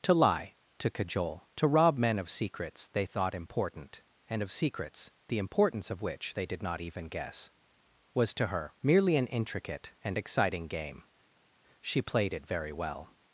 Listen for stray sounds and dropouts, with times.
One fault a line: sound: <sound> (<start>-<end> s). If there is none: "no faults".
no faults